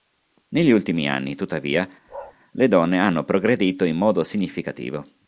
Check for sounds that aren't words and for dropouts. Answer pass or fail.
fail